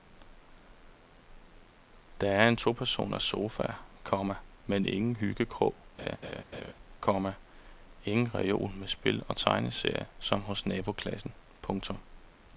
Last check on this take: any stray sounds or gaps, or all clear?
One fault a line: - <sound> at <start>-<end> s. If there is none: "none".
- laugh at 6.0-6.7 s